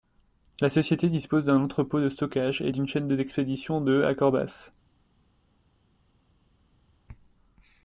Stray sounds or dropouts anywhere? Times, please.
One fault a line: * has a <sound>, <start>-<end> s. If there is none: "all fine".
all fine